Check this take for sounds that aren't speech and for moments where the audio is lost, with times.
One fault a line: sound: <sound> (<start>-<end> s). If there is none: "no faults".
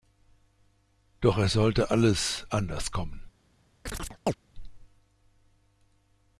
sound: chirp (3.9-4.3 s)